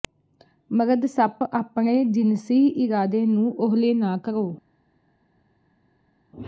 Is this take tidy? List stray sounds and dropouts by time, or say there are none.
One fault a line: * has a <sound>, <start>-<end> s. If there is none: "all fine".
all fine